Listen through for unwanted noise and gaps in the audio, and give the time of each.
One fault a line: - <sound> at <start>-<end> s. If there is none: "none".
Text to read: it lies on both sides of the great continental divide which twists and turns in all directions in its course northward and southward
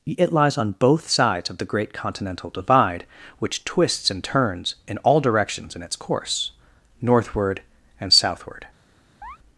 - chirp at 9.2-9.4 s